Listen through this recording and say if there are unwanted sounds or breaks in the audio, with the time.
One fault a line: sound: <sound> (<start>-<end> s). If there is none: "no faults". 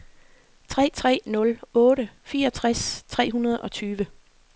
no faults